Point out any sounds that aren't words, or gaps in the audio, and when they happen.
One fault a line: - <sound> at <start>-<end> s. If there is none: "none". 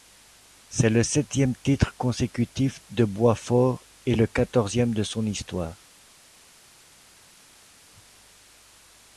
none